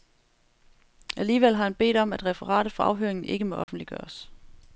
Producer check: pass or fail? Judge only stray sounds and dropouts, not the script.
fail